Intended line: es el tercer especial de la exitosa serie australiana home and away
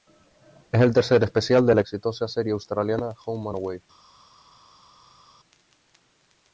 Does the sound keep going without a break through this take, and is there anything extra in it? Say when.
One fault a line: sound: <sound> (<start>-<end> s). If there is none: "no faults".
no faults